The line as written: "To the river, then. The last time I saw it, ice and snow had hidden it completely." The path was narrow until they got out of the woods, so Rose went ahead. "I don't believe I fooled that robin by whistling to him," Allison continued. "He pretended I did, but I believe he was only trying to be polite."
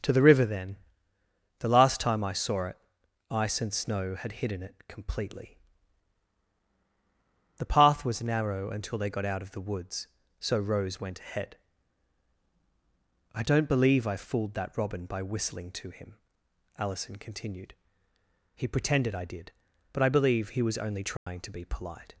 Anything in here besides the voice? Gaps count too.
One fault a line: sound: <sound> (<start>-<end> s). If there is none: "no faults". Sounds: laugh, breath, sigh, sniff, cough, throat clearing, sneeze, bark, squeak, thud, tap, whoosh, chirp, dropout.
sound: dropout (21.2-21.3 s)